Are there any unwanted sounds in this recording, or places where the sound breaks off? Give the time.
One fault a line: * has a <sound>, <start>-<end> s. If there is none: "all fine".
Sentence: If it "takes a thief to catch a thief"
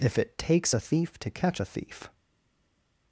all fine